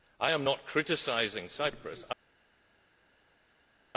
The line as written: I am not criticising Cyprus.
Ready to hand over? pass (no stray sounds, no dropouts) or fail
pass